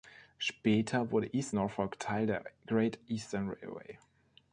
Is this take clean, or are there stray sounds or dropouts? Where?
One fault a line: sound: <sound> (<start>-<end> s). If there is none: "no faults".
no faults